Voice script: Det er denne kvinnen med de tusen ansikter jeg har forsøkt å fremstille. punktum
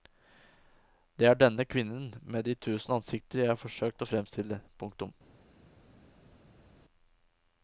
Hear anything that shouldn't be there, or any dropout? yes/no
no